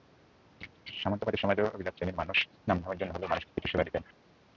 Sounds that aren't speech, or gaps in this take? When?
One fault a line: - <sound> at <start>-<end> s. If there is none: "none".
none